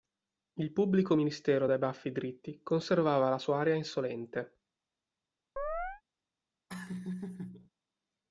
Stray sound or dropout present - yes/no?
yes